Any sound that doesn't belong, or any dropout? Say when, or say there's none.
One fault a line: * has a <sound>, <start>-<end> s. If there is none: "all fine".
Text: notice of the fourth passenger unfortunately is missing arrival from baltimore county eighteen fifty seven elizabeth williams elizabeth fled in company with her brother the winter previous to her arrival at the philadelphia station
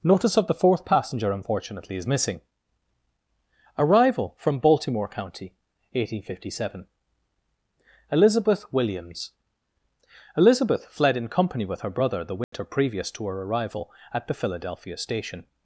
* has a dropout, 12.4-12.5 s